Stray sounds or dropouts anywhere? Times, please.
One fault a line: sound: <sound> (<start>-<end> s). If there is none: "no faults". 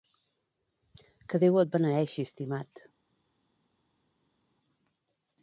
no faults